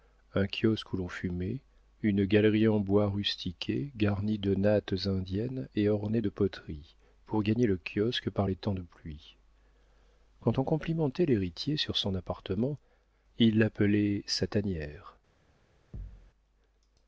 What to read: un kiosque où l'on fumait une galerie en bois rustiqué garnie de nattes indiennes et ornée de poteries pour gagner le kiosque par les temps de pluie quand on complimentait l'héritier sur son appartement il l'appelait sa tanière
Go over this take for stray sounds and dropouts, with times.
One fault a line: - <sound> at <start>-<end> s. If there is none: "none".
- thud at 15.9-16.3 s